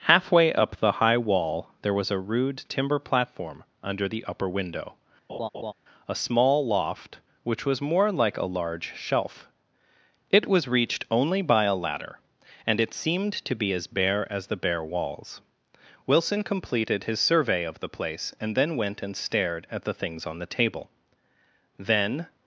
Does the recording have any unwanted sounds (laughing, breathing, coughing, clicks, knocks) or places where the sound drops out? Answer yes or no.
yes